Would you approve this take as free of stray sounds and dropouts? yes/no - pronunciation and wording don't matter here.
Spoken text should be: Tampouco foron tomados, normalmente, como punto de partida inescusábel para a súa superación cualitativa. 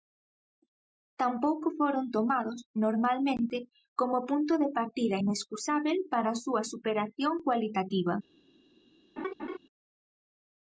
no